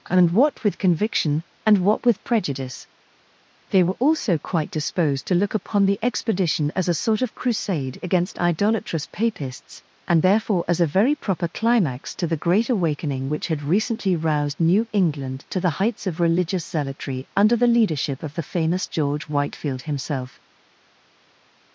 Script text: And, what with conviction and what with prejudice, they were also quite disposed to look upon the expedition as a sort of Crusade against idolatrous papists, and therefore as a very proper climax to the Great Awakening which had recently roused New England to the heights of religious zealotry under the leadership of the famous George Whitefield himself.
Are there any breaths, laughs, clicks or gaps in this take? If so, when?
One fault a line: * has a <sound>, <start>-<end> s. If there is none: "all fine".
all fine